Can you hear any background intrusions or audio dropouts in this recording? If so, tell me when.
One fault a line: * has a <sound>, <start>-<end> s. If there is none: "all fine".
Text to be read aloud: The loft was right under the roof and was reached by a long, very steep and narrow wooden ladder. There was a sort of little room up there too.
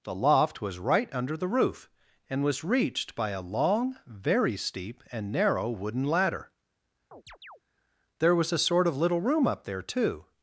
* has a chirp, 7.1-7.6 s